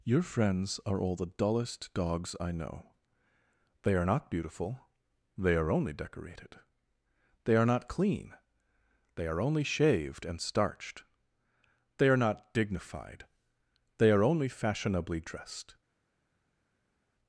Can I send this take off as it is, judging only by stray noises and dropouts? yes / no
yes